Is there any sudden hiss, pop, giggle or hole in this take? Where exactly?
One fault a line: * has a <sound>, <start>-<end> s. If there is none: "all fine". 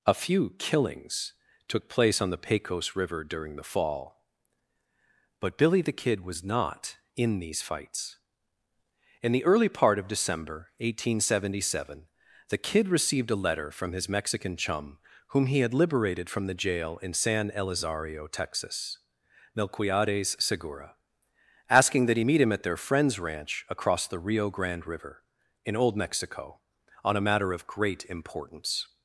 all fine